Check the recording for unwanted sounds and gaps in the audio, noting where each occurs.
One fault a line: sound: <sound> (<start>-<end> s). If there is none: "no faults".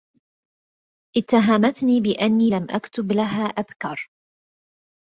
no faults